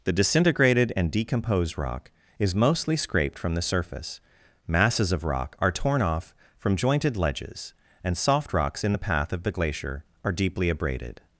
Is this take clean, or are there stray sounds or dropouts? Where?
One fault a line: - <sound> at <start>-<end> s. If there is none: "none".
none